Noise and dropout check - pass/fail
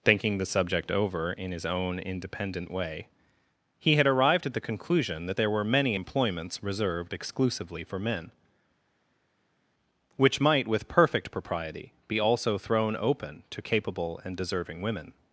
pass